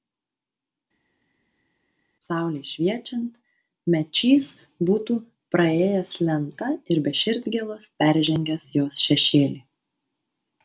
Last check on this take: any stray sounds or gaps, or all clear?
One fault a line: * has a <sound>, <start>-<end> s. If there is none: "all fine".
all fine